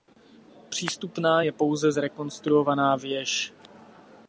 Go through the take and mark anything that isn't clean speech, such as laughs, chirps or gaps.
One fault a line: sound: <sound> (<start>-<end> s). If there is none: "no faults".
no faults